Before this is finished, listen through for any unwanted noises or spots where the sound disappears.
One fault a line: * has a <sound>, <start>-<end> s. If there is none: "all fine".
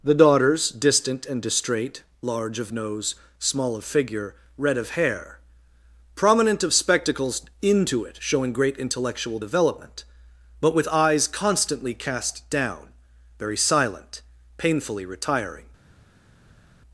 all fine